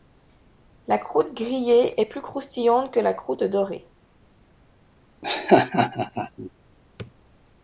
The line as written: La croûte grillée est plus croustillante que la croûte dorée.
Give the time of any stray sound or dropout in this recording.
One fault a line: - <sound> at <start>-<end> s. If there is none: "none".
- laugh at 5.2-6.5 s